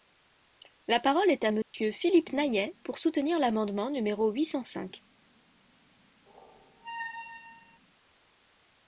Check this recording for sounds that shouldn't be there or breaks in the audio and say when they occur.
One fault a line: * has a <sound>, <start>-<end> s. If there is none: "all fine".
* has a dropout, 1.6-1.7 s
* has a squeak, 6.3-7.8 s